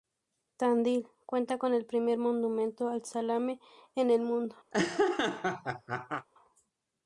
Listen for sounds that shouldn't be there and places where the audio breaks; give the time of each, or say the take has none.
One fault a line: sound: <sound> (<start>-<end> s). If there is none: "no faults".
sound: laugh (4.7-6.3 s)